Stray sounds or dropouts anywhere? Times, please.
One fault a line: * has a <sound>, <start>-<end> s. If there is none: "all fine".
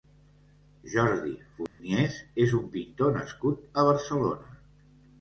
* has a dropout, 1.7-1.8 s